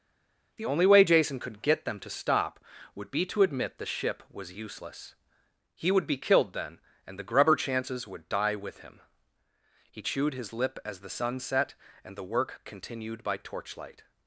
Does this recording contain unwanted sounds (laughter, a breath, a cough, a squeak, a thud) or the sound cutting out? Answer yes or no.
no